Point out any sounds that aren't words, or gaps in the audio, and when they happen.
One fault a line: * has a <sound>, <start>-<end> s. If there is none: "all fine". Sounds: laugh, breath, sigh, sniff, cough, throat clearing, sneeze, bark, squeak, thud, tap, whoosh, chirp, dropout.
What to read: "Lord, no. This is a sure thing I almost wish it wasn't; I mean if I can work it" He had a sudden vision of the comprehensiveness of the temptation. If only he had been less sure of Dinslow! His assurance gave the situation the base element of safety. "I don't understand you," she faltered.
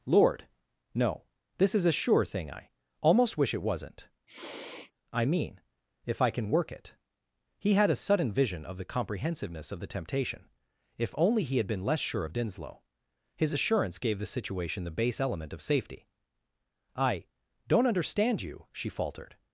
* has a sniff, 4.3-4.9 s